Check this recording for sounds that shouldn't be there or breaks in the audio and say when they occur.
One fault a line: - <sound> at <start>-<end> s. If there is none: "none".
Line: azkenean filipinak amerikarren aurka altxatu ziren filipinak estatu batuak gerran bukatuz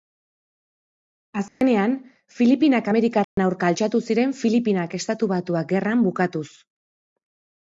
- dropout at 1.5-1.6 s
- dropout at 3.2-3.4 s